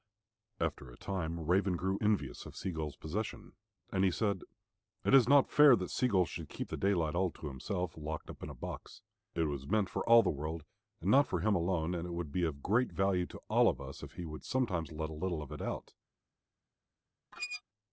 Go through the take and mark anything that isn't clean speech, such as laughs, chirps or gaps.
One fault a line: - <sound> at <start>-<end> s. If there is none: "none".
- squeak at 17.3-17.6 s